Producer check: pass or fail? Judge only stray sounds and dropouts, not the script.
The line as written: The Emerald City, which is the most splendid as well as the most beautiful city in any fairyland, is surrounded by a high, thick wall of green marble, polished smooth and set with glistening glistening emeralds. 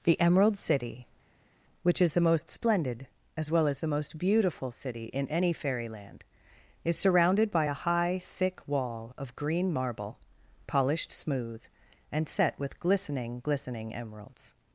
pass